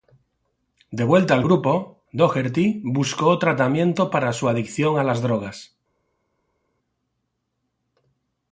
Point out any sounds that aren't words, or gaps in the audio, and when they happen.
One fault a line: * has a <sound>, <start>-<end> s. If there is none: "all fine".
all fine